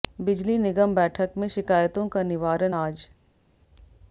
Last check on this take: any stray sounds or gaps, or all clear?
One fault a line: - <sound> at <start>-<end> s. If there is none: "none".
none